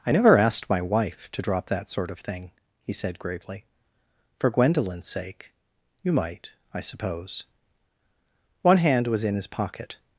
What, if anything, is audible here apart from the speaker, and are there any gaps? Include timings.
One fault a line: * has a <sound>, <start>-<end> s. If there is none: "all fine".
all fine